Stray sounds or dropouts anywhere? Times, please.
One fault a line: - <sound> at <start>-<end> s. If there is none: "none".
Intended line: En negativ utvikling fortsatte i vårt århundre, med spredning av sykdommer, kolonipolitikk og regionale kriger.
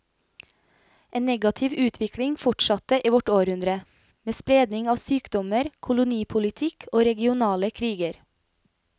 none